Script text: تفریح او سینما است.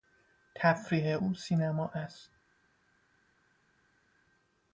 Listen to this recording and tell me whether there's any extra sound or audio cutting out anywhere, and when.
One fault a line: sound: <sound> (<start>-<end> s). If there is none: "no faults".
no faults